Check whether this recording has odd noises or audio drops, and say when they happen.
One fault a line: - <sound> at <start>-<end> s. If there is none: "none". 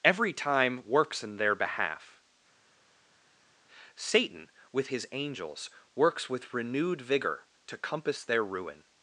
none